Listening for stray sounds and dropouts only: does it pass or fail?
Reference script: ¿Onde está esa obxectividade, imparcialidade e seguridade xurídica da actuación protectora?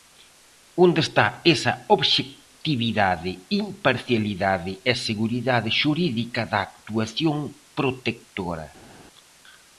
pass